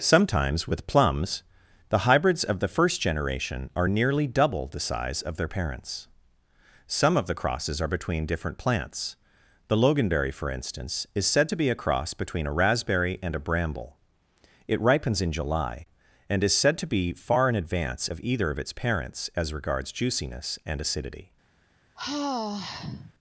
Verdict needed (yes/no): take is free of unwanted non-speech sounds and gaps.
no